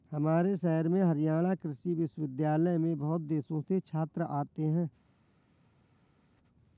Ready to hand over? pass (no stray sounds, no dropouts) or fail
pass